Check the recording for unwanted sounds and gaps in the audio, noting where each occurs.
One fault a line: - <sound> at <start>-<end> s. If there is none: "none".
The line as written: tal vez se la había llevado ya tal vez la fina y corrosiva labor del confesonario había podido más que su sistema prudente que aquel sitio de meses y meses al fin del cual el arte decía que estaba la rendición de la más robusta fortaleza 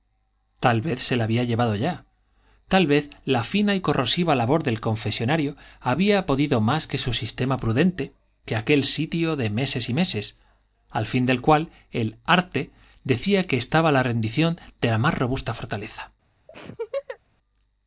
- laugh at 16.5-17.2 s